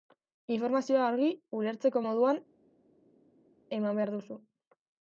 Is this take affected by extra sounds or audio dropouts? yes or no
no